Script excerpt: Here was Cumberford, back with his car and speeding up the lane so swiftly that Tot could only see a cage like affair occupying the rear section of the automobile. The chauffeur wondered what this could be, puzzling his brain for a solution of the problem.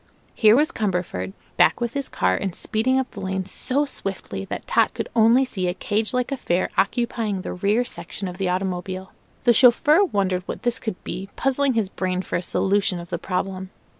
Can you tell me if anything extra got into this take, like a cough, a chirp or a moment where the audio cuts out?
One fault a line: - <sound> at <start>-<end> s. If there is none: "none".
none